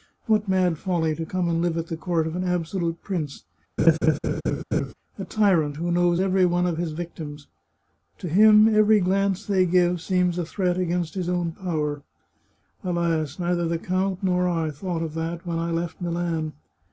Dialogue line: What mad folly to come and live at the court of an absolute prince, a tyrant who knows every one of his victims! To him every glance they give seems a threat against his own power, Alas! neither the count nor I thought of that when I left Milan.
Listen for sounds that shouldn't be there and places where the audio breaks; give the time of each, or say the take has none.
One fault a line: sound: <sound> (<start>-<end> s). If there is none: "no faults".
sound: laugh (3.8-4.9 s)